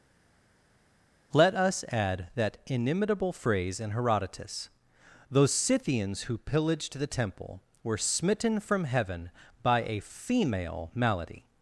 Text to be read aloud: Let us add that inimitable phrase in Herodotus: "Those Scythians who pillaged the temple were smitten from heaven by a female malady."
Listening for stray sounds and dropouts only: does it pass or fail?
pass